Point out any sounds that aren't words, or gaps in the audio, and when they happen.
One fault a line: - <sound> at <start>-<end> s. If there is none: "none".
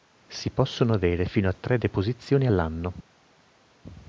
none